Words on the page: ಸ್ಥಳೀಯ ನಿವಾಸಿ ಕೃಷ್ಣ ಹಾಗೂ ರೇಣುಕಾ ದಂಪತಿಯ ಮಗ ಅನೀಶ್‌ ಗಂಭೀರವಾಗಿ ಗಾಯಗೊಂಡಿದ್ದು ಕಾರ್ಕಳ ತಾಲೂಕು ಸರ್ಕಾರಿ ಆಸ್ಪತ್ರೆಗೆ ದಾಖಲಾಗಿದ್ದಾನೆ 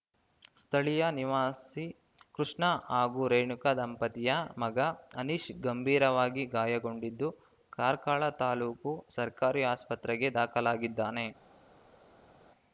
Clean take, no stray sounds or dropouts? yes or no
yes